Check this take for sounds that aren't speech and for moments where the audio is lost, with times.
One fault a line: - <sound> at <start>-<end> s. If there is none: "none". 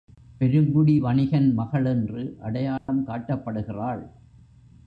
- dropout at 2.8-2.9 s